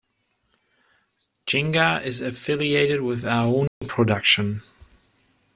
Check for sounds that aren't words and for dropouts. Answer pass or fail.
fail